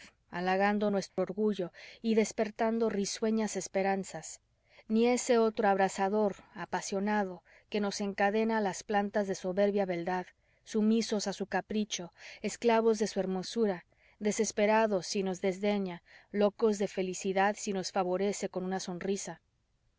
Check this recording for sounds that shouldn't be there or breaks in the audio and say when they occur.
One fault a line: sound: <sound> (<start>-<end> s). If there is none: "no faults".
sound: dropout (1.1-1.2 s)